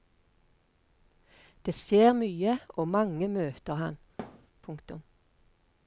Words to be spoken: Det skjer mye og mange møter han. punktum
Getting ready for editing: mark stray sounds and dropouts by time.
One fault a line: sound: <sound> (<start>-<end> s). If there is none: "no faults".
sound: thud (4.2-4.5 s)